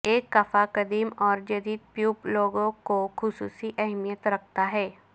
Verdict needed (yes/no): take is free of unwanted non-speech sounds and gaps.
yes